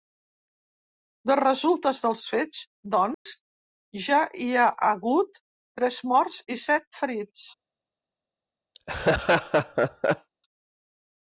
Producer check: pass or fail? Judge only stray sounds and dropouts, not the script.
fail